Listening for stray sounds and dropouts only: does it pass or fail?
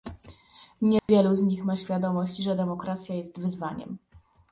fail